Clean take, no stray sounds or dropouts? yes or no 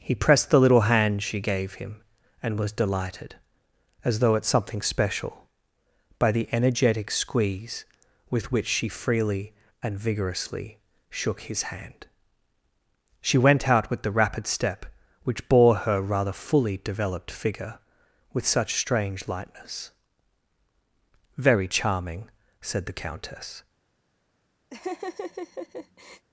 no